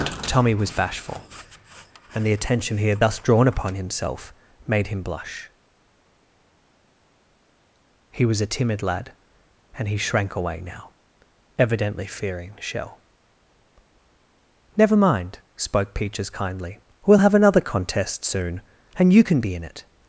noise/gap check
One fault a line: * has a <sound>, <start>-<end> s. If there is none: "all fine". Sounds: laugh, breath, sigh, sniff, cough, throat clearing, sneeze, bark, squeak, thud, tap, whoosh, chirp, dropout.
all fine